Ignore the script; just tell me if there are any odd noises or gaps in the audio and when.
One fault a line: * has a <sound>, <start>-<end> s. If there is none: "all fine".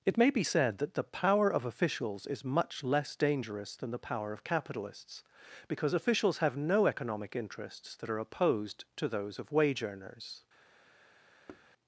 * has a thud, 11.5-11.7 s